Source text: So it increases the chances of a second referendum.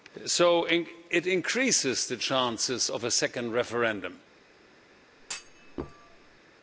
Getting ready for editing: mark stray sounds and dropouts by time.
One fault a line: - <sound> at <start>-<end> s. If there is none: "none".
- thud at 5.2-6.4 s